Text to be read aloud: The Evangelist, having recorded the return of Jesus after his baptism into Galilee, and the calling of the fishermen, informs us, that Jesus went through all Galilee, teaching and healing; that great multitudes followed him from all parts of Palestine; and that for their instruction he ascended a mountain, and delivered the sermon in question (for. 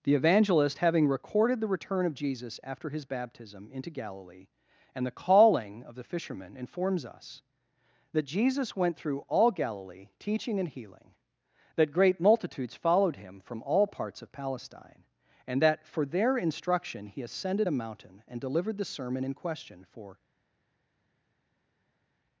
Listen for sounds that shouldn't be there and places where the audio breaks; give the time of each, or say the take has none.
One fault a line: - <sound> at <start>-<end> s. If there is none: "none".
none